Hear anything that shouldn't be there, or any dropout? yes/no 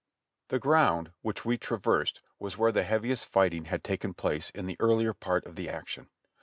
no